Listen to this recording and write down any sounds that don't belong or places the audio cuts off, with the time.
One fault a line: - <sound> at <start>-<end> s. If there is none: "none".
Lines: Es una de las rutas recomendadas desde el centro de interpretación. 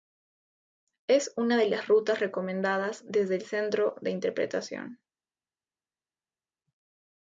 none